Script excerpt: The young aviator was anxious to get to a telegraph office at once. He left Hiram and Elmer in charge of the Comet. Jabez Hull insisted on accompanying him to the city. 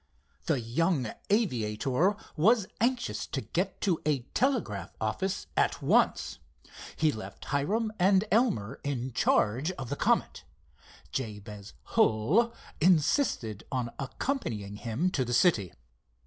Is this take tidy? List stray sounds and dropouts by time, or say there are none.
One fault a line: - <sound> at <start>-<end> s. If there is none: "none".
none